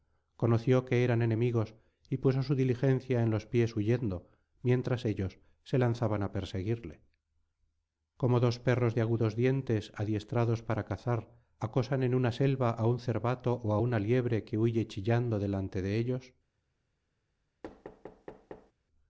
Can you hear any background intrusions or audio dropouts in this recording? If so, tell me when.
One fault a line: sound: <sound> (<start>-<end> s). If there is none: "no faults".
sound: thud (17.6-18.7 s)